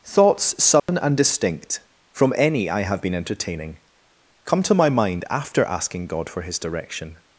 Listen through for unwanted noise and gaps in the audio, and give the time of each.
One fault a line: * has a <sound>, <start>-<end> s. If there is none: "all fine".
* has a dropout, 0.8-0.9 s